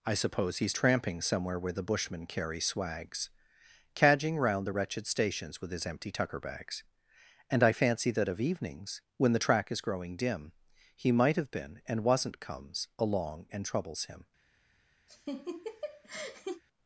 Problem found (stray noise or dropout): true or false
true